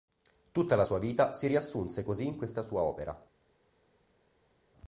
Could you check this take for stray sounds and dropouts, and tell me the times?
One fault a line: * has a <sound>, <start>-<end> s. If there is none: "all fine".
all fine